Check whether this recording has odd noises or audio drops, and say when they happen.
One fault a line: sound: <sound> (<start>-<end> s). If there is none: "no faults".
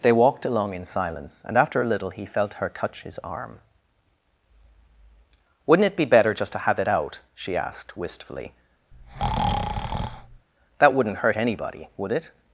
sound: breath (8.9-10.5 s)